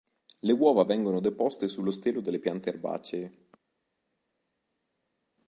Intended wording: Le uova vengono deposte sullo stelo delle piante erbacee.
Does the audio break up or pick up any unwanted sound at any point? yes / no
no